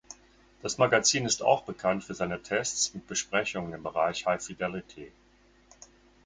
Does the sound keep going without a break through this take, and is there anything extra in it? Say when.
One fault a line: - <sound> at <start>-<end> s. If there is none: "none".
none